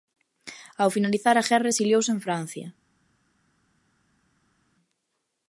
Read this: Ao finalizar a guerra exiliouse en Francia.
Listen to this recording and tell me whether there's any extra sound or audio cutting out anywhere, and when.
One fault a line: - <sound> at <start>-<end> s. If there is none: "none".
none